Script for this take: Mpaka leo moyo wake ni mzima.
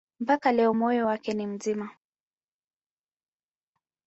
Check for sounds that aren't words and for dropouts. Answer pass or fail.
pass